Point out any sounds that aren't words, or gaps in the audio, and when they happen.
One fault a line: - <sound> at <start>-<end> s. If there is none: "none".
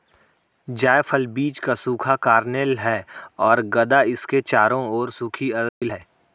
- dropout at 5.7-5.8 s